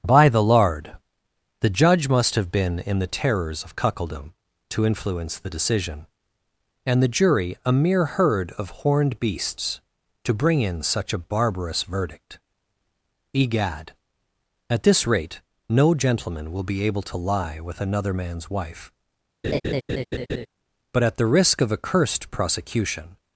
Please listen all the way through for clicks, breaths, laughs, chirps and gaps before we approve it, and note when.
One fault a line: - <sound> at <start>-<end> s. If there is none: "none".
- laugh at 19.4-20.5 s